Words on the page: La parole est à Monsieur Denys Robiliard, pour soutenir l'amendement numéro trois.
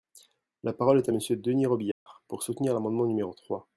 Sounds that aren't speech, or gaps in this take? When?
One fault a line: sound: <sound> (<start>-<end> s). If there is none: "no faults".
sound: dropout (1.9-2.1 s)